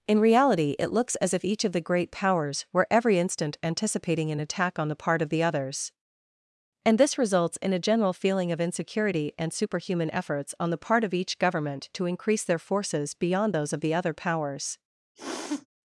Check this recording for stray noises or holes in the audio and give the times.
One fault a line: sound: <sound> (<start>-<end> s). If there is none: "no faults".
sound: sniff (15.2-15.7 s)